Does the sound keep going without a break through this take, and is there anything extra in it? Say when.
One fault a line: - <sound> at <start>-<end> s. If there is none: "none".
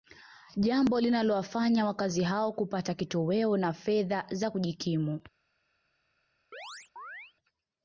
- chirp at 6.5-7.3 s